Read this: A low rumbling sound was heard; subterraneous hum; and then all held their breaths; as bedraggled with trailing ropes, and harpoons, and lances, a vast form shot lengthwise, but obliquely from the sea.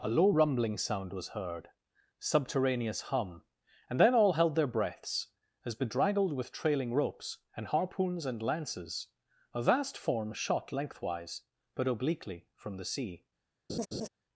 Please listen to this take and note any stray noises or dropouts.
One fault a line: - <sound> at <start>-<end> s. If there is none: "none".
- laugh at 13.7-14.1 s